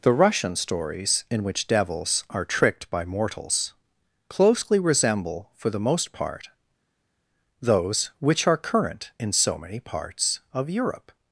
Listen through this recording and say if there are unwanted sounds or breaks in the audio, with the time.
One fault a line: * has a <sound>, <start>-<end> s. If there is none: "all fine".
all fine